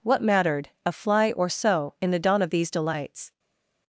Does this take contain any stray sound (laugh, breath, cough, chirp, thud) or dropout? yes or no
no